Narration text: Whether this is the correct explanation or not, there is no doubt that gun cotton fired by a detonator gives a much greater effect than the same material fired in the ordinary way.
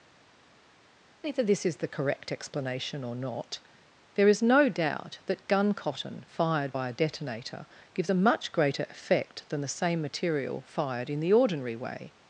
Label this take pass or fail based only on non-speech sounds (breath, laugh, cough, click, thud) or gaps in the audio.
pass